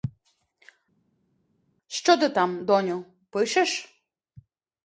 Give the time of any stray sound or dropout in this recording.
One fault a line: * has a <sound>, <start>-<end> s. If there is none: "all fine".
all fine